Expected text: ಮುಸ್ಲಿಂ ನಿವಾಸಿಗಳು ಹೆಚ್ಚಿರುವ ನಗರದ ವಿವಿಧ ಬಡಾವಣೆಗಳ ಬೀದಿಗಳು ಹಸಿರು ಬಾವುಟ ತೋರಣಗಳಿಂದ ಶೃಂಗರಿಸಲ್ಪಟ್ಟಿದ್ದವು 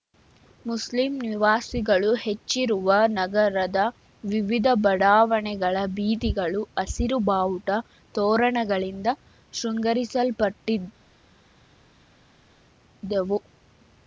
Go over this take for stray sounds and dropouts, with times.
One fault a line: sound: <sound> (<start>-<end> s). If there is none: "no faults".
no faults